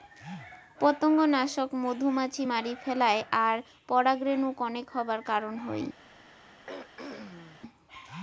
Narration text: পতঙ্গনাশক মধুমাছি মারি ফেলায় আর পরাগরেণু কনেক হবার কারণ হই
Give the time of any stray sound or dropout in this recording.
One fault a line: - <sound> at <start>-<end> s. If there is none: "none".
- throat clearing at 6.7-7.6 s